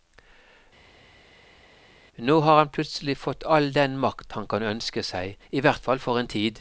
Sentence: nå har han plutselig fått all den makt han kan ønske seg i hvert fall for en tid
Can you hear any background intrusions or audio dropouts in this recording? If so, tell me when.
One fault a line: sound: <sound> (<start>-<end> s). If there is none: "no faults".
no faults